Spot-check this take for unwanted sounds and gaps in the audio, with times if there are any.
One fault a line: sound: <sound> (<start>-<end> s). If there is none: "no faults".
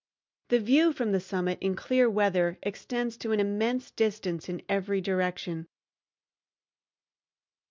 no faults